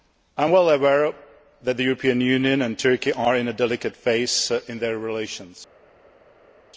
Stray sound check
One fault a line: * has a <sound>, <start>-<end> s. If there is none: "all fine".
all fine